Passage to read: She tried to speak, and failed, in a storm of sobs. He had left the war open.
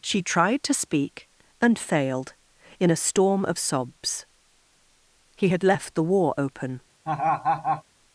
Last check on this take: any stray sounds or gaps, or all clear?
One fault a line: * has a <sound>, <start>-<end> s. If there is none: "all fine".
* has a laugh, 7.0-7.8 s